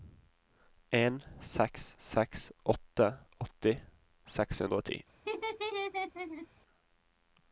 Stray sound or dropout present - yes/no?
yes